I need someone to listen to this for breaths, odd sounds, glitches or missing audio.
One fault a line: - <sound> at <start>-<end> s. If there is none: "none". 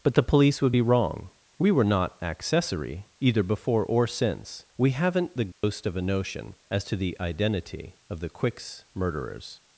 - dropout at 5.5-5.6 s